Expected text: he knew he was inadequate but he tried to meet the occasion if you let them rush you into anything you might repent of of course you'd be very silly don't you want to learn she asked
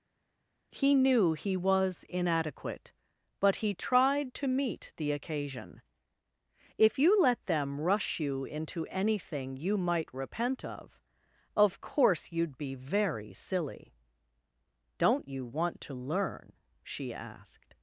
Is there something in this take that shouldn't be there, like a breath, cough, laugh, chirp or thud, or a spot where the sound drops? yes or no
no